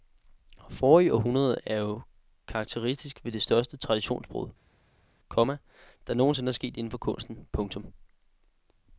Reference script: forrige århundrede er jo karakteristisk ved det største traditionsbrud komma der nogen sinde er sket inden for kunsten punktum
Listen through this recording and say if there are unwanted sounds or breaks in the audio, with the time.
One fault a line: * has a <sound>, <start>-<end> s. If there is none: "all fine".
all fine